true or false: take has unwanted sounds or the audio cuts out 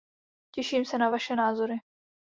false